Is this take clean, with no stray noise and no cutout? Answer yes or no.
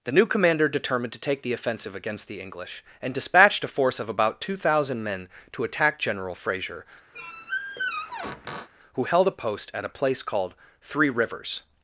no